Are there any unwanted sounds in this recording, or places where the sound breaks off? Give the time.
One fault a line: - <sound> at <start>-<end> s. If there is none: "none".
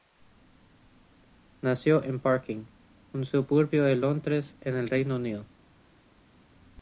none